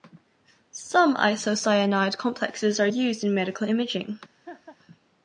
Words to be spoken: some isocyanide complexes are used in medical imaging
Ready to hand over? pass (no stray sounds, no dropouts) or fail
fail